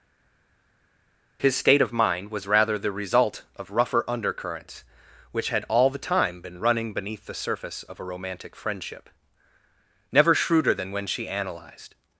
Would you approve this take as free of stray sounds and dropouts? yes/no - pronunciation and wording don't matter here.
yes